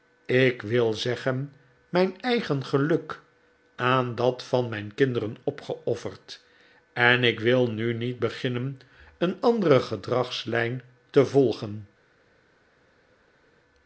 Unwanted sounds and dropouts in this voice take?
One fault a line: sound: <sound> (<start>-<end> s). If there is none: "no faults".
no faults